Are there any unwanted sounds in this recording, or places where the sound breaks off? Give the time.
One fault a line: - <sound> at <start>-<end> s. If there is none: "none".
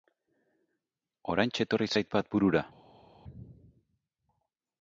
none